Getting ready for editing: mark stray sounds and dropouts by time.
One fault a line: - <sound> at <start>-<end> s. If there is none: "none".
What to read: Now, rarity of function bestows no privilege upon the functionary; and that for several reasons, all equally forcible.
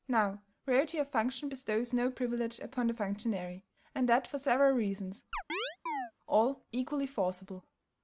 - chirp at 5.3-6.1 s